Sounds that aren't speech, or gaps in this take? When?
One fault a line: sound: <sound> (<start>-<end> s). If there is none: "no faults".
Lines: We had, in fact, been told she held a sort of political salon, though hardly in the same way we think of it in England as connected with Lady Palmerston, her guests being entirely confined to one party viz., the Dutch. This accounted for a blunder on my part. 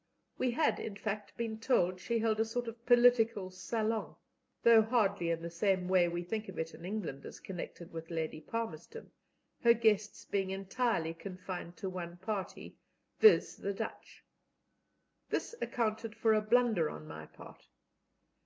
no faults